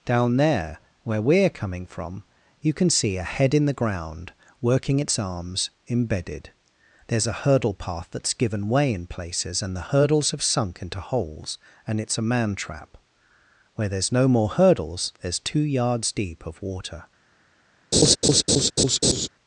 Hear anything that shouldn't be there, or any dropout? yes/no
yes